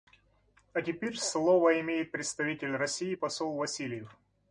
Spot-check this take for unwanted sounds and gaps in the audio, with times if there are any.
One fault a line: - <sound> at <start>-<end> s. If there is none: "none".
none